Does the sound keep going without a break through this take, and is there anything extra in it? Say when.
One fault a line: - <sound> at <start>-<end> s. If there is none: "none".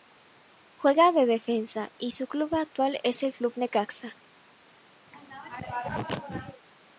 - throat clearing at 5.1-6.6 s